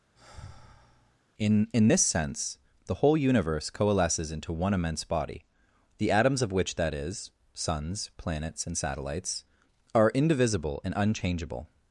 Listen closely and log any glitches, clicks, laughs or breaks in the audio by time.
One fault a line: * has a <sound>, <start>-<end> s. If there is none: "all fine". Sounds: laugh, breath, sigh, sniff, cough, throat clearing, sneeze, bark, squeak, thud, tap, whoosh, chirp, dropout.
* has a sigh, 0.1-1.2 s